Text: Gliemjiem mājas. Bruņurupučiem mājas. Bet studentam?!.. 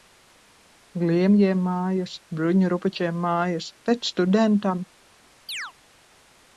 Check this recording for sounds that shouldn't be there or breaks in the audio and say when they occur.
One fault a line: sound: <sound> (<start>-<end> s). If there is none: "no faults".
sound: chirp (5.5-5.7 s)